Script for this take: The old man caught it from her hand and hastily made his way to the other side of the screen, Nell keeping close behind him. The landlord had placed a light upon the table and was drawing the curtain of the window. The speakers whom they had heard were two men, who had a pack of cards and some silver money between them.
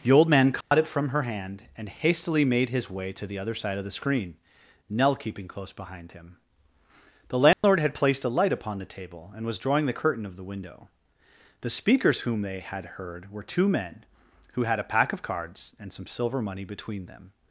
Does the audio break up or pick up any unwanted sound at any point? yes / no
yes